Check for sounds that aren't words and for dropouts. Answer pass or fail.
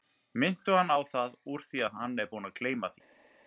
pass